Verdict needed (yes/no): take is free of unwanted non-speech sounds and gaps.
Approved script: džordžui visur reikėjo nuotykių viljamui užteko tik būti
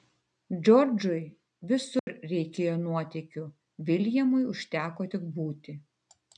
no